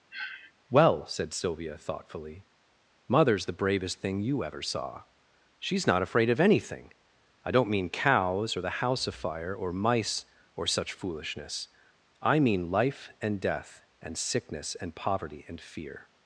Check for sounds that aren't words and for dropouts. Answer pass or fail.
fail